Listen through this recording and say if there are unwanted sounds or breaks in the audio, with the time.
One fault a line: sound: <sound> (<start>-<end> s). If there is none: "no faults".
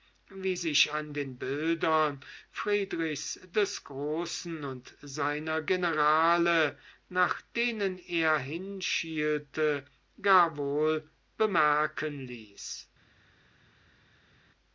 no faults